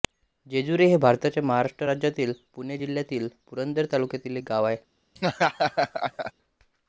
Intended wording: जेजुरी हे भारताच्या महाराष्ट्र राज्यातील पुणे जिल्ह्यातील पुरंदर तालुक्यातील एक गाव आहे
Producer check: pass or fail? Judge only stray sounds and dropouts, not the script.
fail